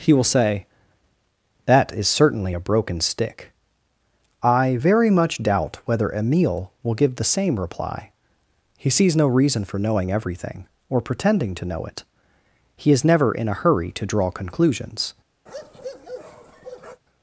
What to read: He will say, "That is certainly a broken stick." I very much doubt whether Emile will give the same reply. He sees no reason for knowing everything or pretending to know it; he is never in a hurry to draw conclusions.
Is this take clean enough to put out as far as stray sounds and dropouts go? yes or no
no